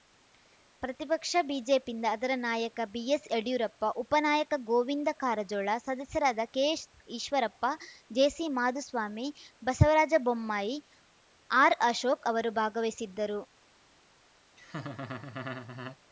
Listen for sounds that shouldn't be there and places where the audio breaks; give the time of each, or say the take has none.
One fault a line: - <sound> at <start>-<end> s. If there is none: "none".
- laugh at 14.6-16.0 s